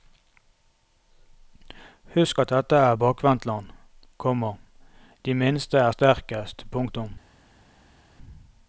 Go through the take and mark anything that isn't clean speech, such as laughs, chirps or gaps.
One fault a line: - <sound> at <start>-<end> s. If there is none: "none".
none